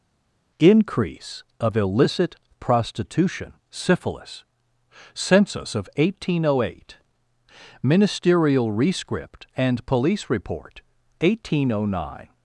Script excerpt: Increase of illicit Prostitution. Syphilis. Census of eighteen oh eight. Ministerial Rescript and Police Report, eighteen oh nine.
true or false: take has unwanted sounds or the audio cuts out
false